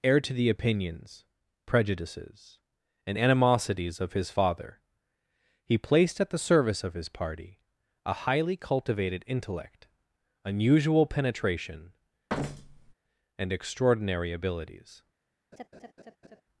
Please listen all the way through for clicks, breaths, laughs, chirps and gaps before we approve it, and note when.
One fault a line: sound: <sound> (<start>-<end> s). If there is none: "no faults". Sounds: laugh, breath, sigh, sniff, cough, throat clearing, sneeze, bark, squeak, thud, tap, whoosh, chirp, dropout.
sound: thud (12.3-12.9 s)
sound: laugh (15.5-16.4 s)